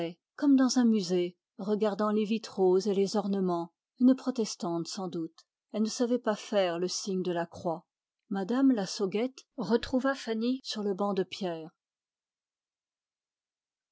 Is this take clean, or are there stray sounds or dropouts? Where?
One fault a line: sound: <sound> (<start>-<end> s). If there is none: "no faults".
no faults